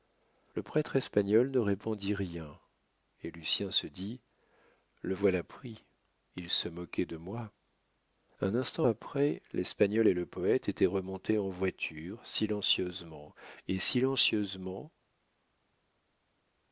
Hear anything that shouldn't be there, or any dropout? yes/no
no